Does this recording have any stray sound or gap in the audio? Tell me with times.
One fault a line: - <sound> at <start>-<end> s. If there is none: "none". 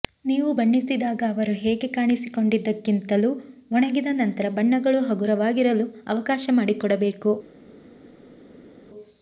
none